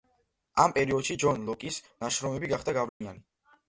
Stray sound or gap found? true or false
true